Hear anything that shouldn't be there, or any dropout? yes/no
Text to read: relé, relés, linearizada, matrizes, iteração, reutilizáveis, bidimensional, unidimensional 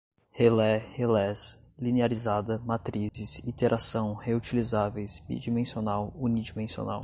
yes